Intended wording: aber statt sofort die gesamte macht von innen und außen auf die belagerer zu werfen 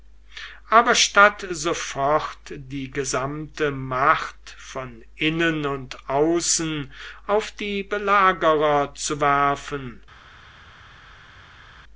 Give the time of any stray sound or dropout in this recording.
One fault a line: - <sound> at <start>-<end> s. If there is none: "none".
none